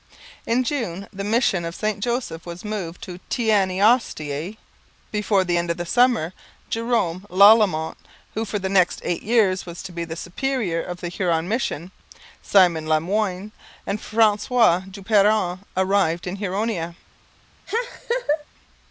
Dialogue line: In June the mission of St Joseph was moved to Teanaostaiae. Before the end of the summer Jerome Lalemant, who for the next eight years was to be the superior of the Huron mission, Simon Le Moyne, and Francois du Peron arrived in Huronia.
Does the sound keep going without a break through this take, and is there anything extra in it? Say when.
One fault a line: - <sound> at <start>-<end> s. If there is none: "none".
- laugh at 17.7-18.4 s